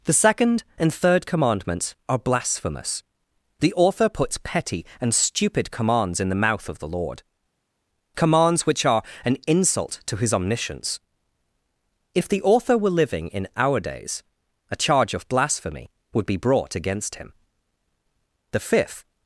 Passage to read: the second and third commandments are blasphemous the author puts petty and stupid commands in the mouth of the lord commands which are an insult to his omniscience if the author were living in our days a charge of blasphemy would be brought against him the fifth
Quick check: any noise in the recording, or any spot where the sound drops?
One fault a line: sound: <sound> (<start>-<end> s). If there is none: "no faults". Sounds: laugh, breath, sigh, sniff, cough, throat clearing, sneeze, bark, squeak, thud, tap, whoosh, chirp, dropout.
no faults